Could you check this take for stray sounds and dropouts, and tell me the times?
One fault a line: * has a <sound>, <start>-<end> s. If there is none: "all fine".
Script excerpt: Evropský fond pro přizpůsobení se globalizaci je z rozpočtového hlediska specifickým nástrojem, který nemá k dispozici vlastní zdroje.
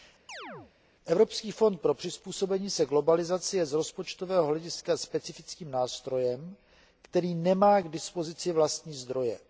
* has a chirp, 0.3-0.7 s